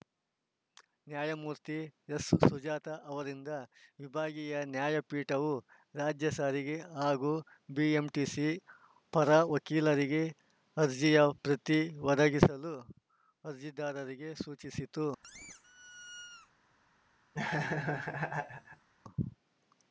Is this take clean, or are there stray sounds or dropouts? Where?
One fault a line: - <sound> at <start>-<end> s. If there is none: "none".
- squeak at 15.2-16.5 s
- laugh at 17.3-18.9 s